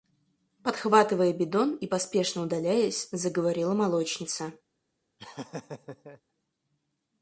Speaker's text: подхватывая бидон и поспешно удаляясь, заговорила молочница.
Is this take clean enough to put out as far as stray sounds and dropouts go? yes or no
no